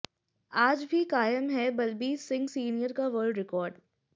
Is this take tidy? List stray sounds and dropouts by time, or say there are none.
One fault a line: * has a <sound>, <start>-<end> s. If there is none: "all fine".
all fine